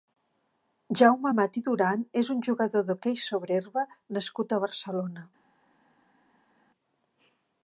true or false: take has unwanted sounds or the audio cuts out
false